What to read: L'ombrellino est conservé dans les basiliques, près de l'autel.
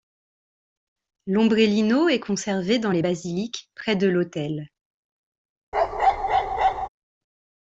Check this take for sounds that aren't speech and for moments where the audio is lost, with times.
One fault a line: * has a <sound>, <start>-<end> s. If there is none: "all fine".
* has a bark, 5.7-6.9 s